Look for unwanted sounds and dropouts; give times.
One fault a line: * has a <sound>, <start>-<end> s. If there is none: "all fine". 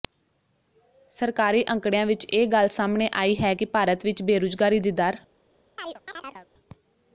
* has a chirp, 5.8-6.5 s